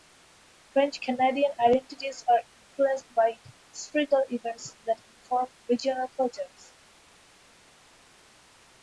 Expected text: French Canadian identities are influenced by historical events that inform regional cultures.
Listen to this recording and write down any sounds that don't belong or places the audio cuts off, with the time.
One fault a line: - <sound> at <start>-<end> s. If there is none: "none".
none